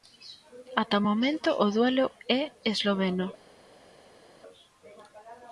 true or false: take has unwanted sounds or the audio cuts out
false